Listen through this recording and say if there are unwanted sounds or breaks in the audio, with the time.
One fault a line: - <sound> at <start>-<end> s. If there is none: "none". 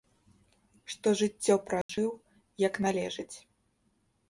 - dropout at 1.8-1.9 s